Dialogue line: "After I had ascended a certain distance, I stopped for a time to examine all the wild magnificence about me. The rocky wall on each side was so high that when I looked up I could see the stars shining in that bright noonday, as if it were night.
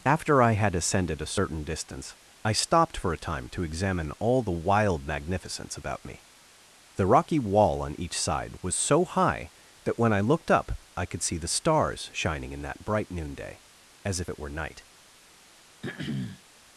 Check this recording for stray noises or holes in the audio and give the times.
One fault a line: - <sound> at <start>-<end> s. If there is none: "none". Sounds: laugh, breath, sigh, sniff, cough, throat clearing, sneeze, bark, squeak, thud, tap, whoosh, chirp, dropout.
- throat clearing at 15.8-16.4 s